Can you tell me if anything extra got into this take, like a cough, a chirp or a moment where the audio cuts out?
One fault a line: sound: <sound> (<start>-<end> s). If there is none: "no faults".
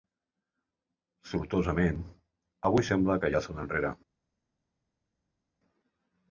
no faults